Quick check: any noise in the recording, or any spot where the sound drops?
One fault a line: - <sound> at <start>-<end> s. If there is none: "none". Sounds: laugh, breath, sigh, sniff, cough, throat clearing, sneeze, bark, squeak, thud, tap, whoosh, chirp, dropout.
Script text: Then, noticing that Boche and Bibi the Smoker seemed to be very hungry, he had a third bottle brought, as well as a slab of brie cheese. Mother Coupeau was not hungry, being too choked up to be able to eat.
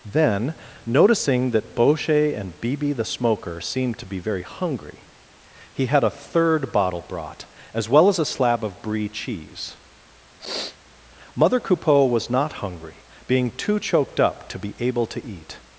- sniff at 10.4-10.8 s